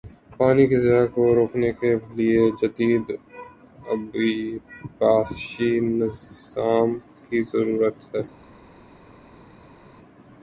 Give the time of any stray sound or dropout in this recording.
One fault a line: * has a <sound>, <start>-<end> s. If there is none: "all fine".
all fine